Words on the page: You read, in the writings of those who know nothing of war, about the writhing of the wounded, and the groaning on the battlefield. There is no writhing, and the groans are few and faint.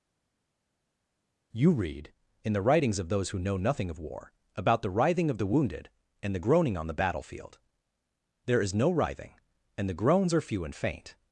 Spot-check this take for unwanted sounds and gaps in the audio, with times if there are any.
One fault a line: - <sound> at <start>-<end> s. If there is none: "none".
none